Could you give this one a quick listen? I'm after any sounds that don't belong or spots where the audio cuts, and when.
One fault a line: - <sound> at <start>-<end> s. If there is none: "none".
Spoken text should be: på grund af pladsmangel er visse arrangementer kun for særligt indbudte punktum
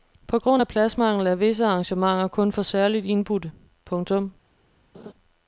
- laugh at 4.9-5.1 s